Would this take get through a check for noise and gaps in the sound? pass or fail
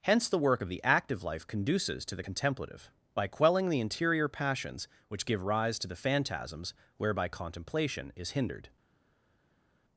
pass